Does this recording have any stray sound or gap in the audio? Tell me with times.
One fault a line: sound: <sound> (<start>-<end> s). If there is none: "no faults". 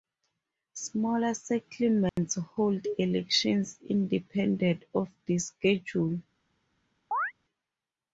sound: dropout (2.1-2.2 s)
sound: chirp (7.1-7.3 s)